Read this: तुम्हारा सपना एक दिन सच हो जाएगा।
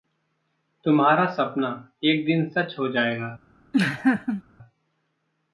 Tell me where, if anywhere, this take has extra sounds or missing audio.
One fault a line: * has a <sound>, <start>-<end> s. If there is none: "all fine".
* has a laugh, 3.7-4.4 s